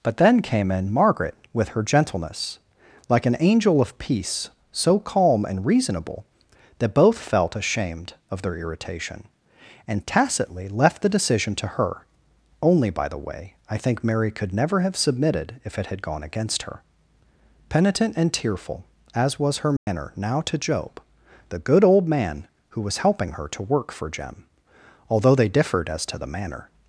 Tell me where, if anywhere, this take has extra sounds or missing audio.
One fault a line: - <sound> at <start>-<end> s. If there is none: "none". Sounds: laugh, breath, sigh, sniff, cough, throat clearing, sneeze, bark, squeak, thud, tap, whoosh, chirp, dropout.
- dropout at 19.8-19.9 s